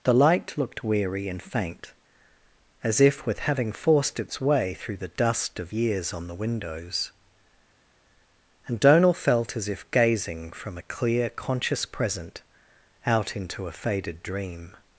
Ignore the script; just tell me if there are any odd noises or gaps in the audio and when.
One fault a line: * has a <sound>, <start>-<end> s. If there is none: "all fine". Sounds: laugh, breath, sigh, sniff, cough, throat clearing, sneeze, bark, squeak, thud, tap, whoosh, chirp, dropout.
all fine